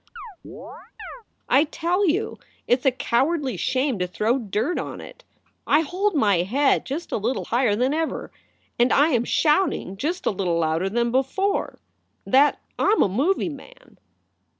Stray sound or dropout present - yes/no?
yes